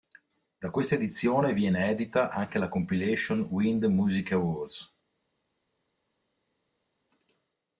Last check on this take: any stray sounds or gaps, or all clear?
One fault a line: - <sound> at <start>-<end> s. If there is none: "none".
none